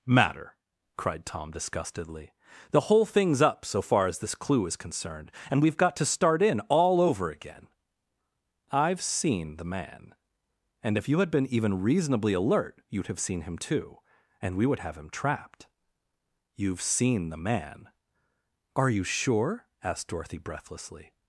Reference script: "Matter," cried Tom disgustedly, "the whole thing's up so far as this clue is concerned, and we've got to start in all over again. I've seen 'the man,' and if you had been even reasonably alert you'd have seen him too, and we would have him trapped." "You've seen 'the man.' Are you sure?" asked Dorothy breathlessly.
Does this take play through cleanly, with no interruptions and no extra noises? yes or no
yes